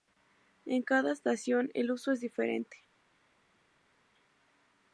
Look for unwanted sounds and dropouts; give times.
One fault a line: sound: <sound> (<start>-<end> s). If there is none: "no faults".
no faults